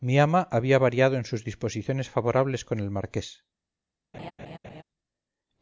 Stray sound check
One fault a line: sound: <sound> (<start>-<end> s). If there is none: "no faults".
sound: laugh (4.1-4.8 s)